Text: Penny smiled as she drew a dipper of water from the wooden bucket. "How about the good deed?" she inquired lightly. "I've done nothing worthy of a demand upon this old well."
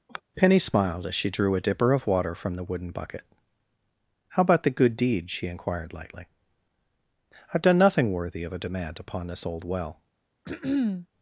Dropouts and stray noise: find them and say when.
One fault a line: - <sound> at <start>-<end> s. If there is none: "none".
- sigh at 0.1-0.2 s
- throat clearing at 10.5-11.1 s